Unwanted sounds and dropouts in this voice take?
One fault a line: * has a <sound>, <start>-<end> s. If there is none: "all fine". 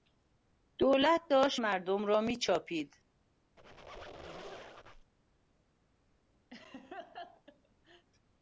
* has a squeak, 3.6-5.1 s
* has a laugh, 6.5-8.1 s